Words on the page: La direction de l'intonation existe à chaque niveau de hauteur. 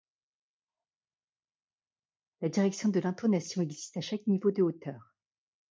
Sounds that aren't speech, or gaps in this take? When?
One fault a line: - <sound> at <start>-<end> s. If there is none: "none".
none